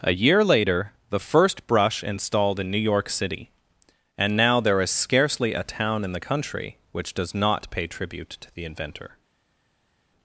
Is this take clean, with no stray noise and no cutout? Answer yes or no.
yes